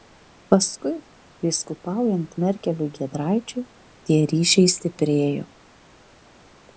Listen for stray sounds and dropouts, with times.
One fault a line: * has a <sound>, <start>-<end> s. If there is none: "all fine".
all fine